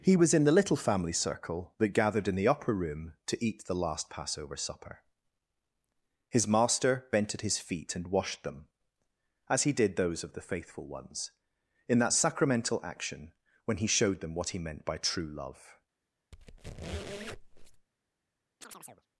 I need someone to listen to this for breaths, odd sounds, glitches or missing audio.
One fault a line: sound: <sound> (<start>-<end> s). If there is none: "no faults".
sound: squeak (16.3-17.9 s)
sound: chirp (18.6-19.1 s)